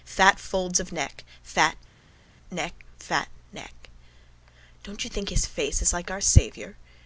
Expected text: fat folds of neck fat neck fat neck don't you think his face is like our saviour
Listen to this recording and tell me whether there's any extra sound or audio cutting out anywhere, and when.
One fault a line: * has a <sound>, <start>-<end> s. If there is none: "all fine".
all fine